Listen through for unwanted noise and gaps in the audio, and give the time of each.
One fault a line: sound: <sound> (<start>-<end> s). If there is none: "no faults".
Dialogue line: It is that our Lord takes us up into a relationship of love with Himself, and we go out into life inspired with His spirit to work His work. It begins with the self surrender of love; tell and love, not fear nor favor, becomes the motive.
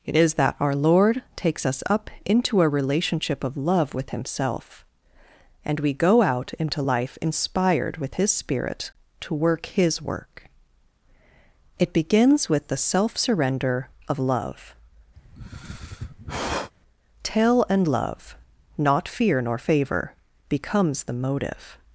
sound: sigh (15.2-16.7 s)